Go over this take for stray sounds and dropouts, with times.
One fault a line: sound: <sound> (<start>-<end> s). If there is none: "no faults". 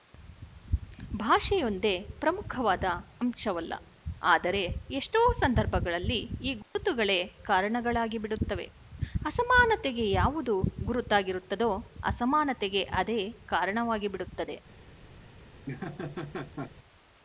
sound: dropout (6.6-6.8 s)
sound: laugh (15.7-16.7 s)